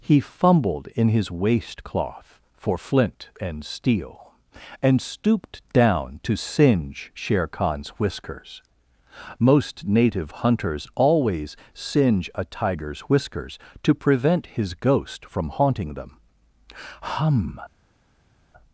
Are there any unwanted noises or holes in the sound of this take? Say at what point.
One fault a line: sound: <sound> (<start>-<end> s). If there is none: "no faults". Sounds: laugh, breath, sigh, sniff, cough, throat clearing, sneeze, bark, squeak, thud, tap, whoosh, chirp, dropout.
no faults